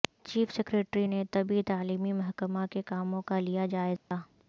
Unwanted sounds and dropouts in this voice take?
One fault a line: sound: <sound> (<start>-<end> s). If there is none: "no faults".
sound: dropout (4.0-4.1 s)